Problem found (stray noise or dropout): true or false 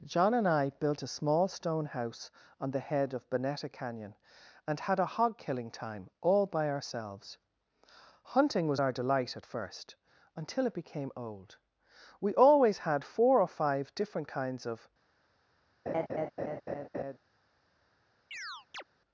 true